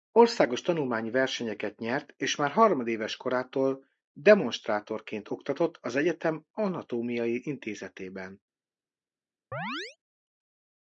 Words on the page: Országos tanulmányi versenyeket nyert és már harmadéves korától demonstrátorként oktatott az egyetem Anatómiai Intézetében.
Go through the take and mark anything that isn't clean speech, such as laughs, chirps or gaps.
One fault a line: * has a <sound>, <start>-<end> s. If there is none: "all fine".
* has a chirp, 9.5-10.0 s